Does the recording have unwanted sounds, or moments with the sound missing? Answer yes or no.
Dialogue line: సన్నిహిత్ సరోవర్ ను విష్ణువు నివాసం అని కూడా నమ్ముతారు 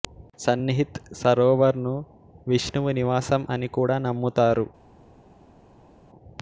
no